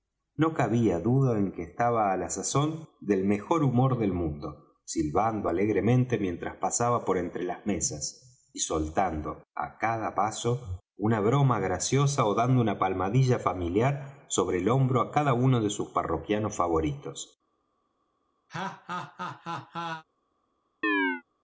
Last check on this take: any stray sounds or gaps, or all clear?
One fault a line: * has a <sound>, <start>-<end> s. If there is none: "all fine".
* has a laugh, 18.5-20.0 s
* has a chirp, 20.8-21.2 s